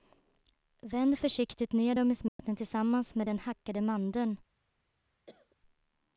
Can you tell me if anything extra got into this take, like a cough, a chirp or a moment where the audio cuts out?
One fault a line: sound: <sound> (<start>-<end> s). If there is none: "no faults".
sound: dropout (2.3-2.4 s)
sound: cough (5.3-5.6 s)